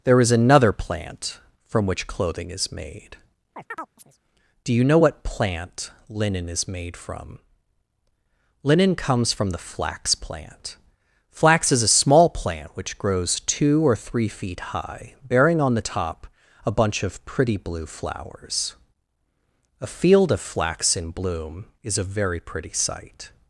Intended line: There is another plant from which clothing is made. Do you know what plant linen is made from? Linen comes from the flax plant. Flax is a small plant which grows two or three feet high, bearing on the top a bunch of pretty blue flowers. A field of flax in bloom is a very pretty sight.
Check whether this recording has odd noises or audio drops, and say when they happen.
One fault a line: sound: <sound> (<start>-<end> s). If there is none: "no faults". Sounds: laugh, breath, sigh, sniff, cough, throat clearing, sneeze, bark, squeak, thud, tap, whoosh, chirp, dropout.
sound: chirp (3.6-4.2 s)